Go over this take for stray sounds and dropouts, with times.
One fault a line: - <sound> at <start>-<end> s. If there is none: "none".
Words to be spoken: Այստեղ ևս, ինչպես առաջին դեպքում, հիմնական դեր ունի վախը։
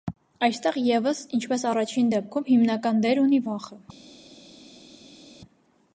none